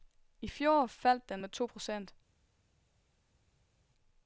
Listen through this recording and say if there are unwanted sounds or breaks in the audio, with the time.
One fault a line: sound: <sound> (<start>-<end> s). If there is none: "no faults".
no faults